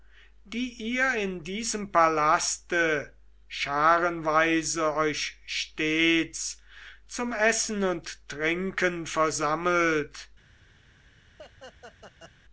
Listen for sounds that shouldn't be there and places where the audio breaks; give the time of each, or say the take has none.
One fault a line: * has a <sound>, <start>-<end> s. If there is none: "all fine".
* has a laugh, 11.4-12.3 s